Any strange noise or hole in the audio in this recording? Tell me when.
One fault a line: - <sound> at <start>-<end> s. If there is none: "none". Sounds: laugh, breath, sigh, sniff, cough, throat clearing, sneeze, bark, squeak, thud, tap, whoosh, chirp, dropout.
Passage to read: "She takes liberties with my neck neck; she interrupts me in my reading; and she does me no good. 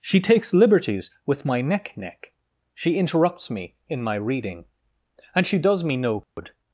- dropout at 6.2-6.4 s